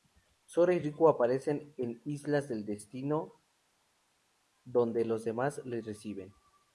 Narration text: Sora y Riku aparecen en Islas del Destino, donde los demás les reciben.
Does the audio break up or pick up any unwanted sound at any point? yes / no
no